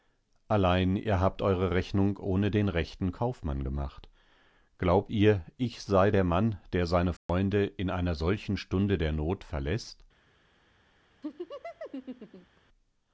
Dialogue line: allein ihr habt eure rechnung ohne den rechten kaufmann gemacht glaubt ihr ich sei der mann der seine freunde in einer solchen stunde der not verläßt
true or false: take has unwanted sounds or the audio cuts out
true